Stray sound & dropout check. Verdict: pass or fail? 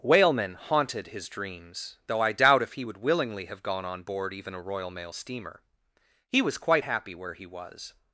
pass